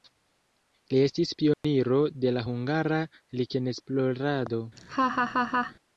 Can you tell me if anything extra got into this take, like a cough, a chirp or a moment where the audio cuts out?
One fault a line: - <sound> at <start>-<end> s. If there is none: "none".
- dropout at 1.5-1.6 s
- laugh at 4.8-5.7 s